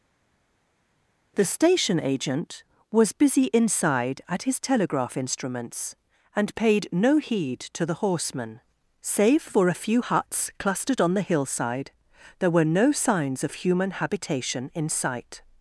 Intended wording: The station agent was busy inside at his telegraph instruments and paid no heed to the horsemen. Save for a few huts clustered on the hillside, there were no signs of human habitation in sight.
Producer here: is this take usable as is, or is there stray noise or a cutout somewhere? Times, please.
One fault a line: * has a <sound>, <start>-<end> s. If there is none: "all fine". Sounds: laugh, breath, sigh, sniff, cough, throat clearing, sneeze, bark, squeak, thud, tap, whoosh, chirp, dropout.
all fine